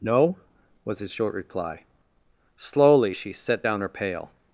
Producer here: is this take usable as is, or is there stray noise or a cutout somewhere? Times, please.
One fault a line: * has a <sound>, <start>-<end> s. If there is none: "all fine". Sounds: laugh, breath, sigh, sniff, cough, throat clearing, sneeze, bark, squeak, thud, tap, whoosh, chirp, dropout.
all fine